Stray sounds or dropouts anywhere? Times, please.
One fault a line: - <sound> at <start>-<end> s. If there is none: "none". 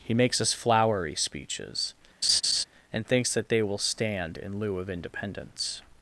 - laugh at 2.2-2.6 s